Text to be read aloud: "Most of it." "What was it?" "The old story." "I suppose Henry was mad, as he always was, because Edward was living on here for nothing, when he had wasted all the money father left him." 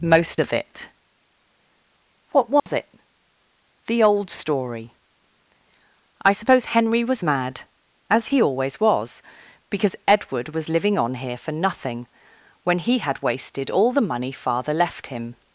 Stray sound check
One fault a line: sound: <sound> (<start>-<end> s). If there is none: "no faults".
sound: dropout (2.6-2.7 s)